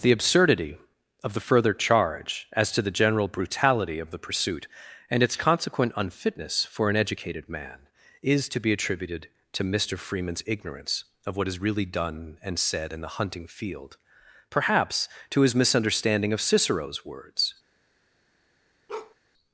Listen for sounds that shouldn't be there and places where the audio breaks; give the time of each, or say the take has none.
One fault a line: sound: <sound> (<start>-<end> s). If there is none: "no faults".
sound: bark (18.9-19.2 s)